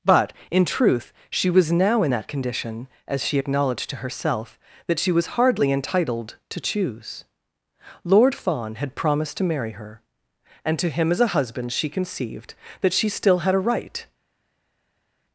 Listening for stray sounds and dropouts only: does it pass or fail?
pass